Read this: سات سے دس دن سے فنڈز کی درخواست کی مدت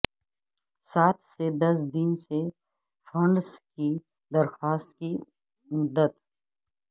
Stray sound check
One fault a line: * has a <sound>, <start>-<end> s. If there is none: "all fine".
all fine